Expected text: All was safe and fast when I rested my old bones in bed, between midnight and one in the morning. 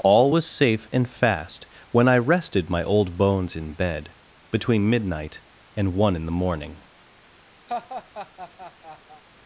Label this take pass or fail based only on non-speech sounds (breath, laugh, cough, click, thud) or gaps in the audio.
fail